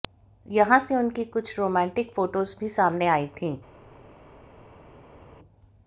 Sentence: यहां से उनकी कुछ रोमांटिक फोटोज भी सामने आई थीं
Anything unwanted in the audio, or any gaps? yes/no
no